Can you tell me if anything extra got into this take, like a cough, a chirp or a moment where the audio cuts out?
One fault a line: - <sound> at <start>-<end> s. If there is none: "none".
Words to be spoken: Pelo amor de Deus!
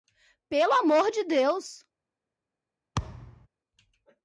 - thud at 3.0-3.5 s